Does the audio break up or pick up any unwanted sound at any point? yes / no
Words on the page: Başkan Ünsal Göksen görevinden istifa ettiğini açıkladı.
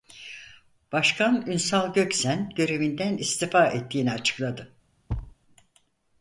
yes